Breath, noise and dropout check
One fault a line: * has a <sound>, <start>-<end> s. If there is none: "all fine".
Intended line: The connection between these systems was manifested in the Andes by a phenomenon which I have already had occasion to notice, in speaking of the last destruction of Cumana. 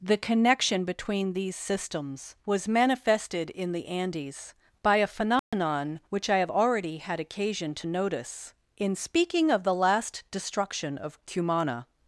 * has a dropout, 5.4-5.5 s